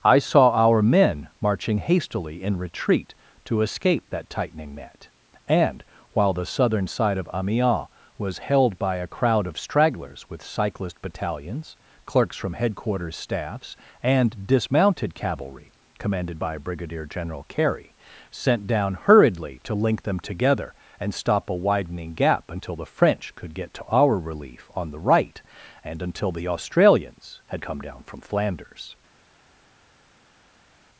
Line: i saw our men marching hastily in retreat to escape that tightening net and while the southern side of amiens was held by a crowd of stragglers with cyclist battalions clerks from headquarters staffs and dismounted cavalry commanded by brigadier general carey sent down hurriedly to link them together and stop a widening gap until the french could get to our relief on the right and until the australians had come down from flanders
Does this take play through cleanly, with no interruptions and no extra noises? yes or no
yes